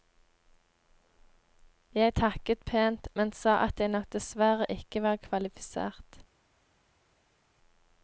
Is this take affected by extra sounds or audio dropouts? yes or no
no